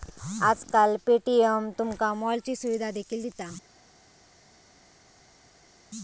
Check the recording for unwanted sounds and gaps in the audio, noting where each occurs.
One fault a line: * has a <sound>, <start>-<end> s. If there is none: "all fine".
all fine